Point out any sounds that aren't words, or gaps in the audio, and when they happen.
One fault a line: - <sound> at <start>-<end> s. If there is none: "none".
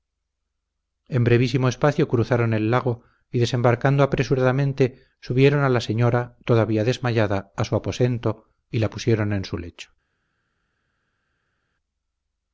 none